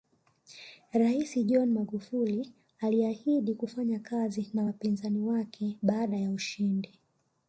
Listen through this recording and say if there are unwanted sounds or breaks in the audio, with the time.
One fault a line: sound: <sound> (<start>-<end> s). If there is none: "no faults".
no faults